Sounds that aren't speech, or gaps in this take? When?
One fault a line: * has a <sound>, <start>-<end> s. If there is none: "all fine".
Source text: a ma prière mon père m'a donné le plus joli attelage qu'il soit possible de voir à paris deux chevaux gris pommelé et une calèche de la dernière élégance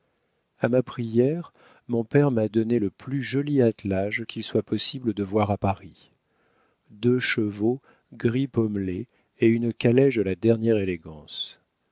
all fine